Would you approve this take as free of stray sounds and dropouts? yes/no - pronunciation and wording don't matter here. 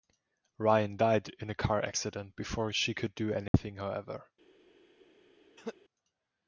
no